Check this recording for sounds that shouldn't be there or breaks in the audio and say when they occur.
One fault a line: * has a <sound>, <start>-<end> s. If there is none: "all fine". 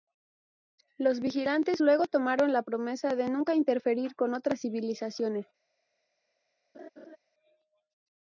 * has a laugh, 6.7-7.2 s